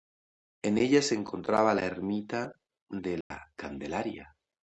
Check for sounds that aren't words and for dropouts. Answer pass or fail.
fail